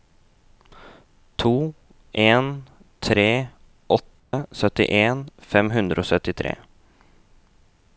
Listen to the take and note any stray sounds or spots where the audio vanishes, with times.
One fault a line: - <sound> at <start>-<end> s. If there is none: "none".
- dropout at 4.2-4.3 s